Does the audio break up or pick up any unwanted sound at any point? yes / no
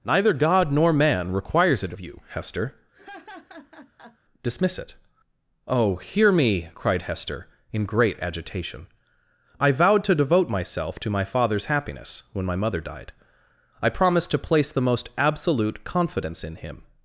yes